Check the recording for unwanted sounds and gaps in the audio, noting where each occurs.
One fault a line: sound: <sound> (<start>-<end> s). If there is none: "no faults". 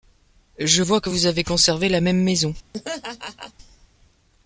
sound: laugh (2.7-3.5 s)